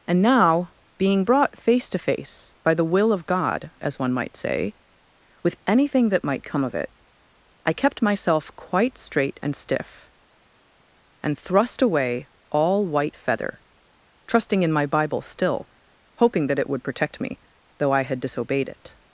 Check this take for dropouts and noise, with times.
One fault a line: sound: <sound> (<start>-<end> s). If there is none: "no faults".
no faults